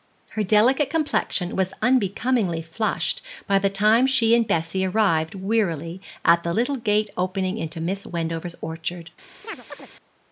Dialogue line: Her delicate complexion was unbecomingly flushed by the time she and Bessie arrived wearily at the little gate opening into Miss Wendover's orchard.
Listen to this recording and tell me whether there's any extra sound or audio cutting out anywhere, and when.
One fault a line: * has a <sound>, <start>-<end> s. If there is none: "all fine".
* has a chirp, 9.4-9.9 s